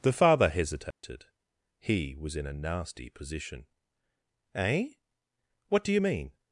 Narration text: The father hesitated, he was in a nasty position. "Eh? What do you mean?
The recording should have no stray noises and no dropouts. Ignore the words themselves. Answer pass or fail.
fail